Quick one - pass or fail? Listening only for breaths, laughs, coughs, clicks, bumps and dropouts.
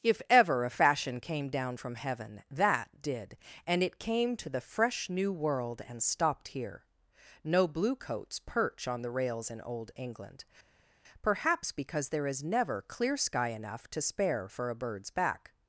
pass